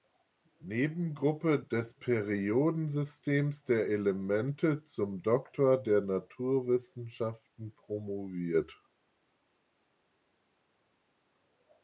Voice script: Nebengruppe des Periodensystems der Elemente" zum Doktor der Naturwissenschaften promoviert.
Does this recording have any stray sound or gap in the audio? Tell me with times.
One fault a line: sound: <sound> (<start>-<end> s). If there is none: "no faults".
no faults